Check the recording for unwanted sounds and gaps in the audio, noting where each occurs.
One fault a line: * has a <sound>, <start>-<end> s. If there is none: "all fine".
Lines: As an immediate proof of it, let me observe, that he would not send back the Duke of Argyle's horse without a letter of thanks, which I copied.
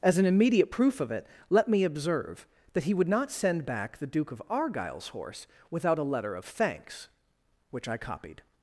all fine